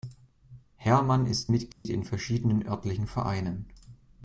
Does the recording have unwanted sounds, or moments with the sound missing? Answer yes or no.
yes